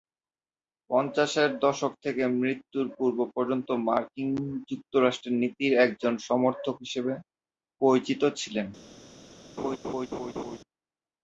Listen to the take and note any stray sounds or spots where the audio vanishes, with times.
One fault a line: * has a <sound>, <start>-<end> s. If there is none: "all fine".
* has a laugh, 9.6-10.6 s